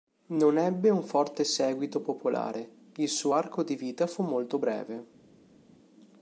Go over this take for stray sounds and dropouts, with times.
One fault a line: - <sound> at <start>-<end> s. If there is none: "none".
none